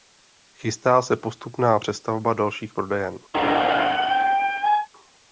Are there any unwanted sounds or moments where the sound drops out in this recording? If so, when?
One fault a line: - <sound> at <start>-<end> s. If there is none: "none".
- squeak at 3.3-4.9 s